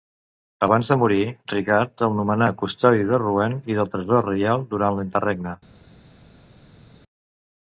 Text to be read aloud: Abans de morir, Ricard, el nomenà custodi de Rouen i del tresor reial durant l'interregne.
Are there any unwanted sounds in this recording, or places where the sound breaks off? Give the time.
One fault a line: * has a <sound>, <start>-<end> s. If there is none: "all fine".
all fine